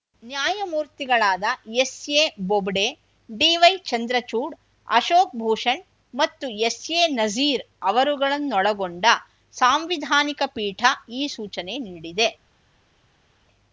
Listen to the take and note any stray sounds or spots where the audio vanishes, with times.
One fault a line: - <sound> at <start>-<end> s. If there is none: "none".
none